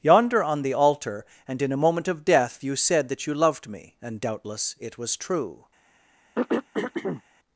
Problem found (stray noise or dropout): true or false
true